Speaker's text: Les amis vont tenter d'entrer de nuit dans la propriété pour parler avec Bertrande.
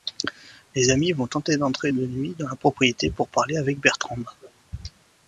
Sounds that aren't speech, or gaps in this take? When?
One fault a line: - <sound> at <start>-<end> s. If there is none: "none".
none